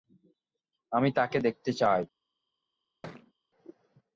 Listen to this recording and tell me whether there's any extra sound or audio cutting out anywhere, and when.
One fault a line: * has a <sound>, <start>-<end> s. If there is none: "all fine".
* has a thud, 3.0-3.3 s